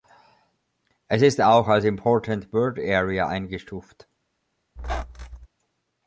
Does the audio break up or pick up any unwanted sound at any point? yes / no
yes